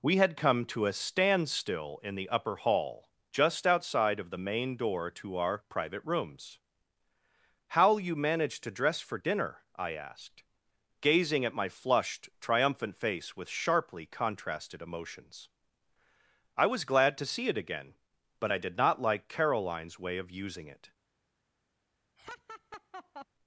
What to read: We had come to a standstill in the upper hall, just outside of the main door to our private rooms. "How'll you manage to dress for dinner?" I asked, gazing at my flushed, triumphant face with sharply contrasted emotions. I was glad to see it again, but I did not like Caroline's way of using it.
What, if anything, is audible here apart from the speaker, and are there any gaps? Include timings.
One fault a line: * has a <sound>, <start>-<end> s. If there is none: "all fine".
* has a laugh, 22.2-23.3 s